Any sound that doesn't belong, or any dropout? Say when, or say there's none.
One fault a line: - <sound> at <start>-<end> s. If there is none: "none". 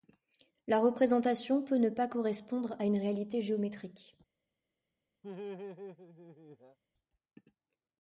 - laugh at 5.2-6.8 s